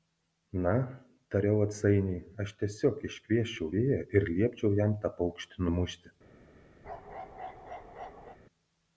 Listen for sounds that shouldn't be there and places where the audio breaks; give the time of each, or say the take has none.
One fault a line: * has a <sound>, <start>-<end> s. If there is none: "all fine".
* has a bark, 6.8-8.4 s